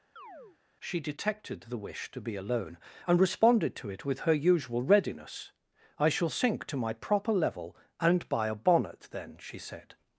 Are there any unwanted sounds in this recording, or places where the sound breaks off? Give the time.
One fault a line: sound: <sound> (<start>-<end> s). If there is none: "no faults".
sound: chirp (0.2-0.6 s)